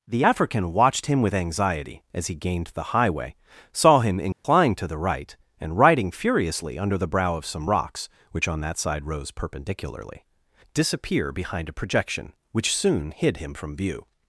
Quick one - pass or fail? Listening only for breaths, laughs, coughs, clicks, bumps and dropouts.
fail